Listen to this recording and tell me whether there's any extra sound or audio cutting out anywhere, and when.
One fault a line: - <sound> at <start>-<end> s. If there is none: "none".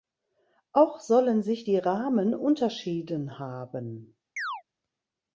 - chirp at 4.4-4.6 s